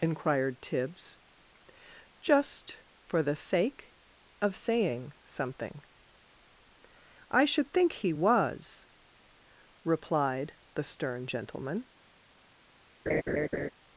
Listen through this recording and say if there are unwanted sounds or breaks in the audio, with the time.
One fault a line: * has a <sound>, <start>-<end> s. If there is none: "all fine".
* has a laugh, 13.1-13.7 s